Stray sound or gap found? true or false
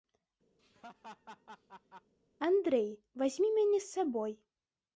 true